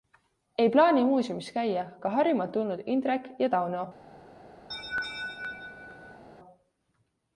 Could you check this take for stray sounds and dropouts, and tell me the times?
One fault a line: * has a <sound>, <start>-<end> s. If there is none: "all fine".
* has a laugh, 4.7-6.2 s